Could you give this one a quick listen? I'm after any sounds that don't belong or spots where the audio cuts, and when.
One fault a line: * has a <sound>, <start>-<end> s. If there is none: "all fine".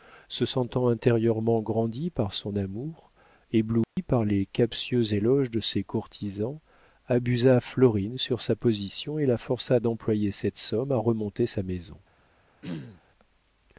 * has a dropout, 3.8-4.0 s
* has a throat clearing, 12.6-13.0 s